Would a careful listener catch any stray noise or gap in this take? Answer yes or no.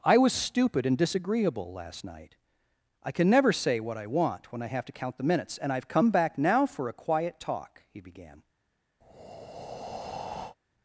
yes